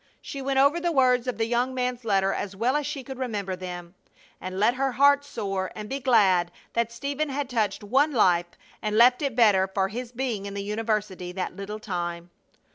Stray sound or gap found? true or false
false